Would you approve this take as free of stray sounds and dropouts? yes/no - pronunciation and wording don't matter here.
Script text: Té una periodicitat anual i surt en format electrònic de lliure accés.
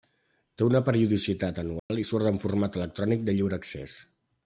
no